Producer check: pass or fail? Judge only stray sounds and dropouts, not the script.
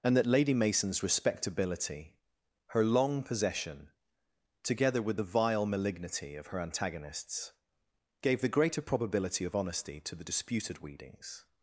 pass